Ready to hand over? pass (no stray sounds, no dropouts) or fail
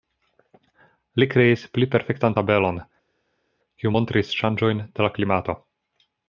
pass